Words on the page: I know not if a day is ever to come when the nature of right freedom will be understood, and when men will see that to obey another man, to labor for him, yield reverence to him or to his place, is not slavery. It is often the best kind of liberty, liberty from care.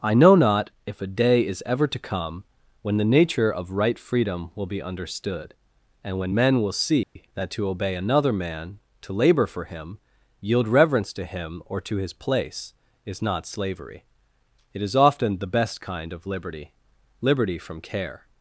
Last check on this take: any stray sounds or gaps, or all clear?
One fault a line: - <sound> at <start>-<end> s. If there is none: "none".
- dropout at 7.0-7.2 s